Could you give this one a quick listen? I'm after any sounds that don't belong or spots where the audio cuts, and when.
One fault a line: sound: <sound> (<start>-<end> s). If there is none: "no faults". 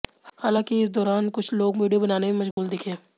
sound: dropout (2.5-2.6 s)